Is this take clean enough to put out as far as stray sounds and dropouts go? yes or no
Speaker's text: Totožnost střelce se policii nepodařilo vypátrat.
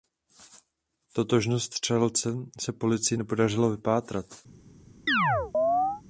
no